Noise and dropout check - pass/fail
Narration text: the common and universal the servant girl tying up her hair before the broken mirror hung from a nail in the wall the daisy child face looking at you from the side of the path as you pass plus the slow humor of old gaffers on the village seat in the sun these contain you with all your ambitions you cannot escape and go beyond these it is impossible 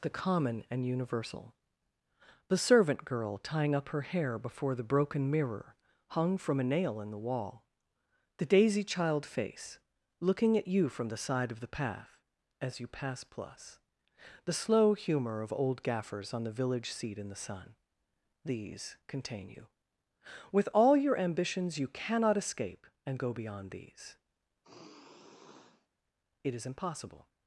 fail